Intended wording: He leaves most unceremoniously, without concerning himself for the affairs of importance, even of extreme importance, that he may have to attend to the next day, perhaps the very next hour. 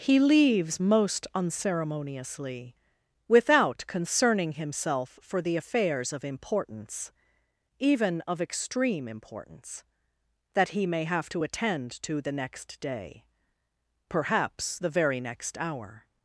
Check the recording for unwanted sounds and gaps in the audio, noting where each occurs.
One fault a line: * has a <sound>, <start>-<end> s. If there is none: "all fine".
all fine